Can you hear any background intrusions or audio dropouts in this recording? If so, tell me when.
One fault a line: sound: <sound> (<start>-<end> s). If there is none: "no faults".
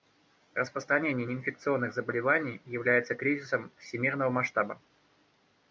no faults